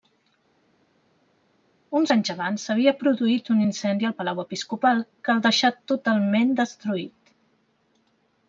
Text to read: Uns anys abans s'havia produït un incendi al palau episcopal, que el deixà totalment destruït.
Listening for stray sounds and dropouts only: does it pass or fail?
pass